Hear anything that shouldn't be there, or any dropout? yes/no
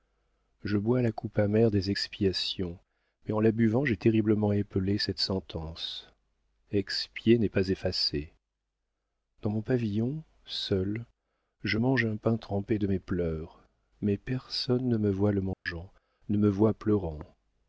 yes